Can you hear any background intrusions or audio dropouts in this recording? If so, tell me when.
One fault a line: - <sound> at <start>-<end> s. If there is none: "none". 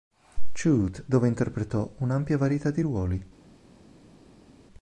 none